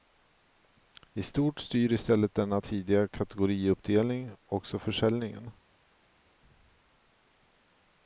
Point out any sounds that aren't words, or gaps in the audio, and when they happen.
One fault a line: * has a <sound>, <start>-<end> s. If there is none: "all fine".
all fine